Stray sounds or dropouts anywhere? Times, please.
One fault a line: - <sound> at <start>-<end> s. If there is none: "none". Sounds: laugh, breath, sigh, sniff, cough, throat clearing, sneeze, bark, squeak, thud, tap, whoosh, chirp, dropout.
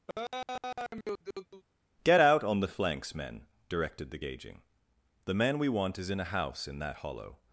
- laugh at 0.1-1.6 s